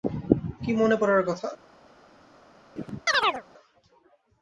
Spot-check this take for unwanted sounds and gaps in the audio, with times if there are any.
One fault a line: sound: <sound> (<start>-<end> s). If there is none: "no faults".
sound: chirp (2.8-3.4 s)